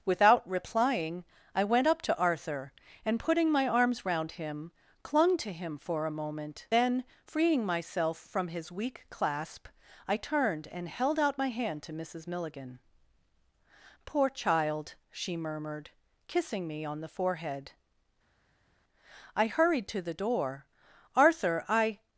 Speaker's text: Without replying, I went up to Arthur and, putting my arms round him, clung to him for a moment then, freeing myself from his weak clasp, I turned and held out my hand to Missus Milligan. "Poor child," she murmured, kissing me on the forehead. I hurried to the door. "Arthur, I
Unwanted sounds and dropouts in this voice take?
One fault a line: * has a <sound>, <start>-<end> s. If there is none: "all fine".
all fine